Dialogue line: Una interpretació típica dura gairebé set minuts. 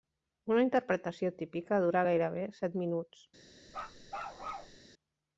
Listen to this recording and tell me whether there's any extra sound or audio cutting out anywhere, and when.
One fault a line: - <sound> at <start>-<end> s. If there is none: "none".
- bark at 3.7-4.8 s